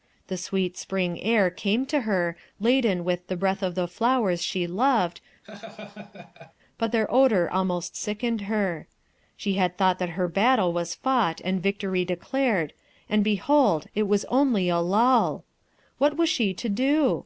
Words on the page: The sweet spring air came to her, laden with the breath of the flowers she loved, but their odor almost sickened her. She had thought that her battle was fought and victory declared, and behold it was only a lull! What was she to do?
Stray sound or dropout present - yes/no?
yes